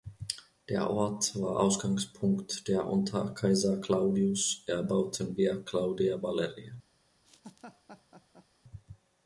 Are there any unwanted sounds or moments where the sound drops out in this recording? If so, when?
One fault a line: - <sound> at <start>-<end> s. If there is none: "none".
- laugh at 7.2-8.5 s